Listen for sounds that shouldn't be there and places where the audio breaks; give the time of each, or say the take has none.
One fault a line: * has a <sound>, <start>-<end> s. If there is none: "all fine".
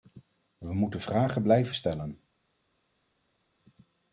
all fine